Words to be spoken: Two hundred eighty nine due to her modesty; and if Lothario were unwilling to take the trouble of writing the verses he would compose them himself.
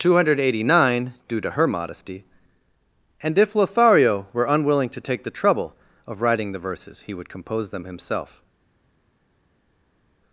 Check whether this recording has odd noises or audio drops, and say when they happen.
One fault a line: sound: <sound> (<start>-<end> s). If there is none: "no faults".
no faults